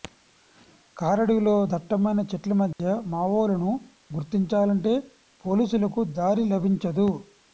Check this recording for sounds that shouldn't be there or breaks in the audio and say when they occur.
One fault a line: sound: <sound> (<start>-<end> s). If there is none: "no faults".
sound: dropout (2.7-2.8 s)